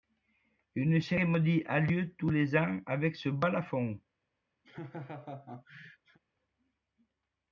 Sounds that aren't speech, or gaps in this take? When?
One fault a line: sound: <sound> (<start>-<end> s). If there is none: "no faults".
sound: laugh (4.6-6.2 s)